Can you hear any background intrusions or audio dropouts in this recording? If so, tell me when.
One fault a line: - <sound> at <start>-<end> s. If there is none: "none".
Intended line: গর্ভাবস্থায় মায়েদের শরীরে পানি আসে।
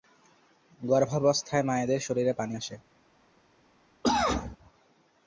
- cough at 4.0-4.6 s